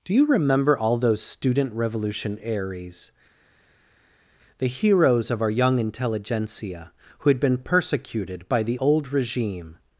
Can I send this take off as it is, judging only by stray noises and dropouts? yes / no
yes